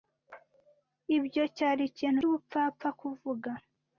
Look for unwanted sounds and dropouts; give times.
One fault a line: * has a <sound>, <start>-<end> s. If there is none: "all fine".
all fine